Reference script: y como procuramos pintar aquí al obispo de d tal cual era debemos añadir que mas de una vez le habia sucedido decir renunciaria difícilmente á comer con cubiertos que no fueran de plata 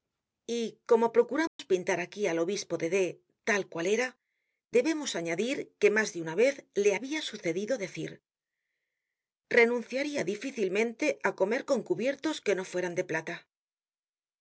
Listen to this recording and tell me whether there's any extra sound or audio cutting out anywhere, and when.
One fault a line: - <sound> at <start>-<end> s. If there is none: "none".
- dropout at 1.5-1.6 s